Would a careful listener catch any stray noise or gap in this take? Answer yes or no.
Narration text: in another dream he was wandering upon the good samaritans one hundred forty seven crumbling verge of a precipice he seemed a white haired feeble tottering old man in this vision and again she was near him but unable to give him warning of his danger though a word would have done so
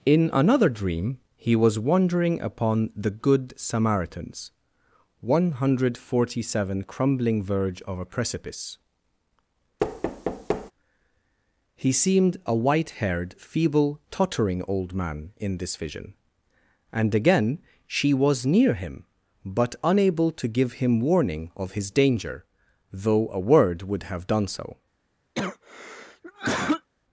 yes